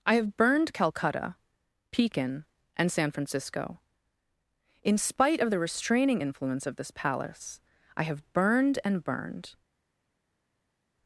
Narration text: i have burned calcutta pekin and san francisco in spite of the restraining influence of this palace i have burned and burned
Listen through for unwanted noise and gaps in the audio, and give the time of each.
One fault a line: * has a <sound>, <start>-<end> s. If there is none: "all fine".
all fine